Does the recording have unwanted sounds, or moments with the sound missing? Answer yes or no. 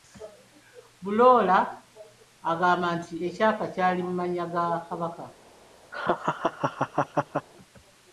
yes